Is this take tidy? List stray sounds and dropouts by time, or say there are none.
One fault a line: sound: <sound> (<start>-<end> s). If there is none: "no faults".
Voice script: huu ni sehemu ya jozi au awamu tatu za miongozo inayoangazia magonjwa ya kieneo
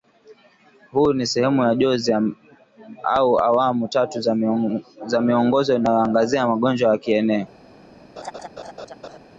sound: laugh (8.2-9.2 s)